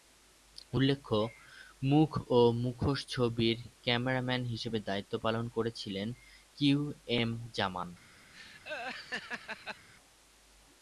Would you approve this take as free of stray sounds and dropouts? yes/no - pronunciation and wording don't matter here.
no